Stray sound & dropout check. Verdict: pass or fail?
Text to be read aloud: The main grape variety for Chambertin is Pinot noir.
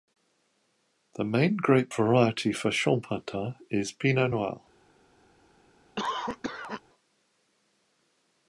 fail